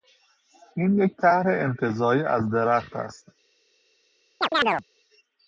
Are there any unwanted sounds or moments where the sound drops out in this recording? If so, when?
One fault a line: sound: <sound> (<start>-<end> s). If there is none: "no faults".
sound: chirp (4.4-4.8 s)